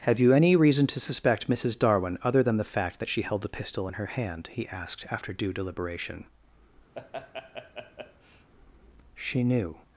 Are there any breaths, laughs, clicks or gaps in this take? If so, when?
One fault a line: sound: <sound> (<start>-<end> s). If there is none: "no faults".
sound: laugh (6.9-8.5 s)